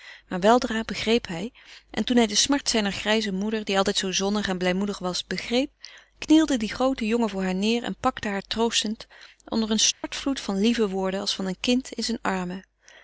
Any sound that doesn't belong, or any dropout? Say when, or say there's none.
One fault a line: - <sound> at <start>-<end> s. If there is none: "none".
- dropout at 9.9-10.0 s